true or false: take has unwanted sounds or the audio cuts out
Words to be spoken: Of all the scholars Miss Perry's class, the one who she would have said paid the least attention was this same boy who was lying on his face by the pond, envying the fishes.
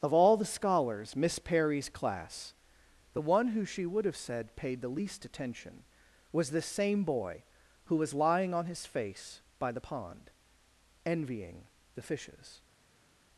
false